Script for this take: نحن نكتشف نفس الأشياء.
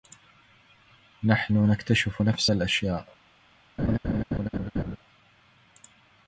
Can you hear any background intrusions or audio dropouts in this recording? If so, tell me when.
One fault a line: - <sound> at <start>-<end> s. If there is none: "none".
- laugh at 3.8-5.0 s